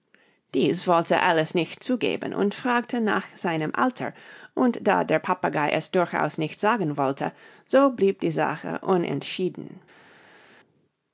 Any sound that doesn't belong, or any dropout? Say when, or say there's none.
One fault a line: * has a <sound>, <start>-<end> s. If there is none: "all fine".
all fine